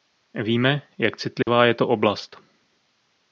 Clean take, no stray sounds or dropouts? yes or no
no